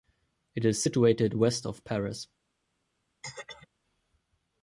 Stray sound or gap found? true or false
true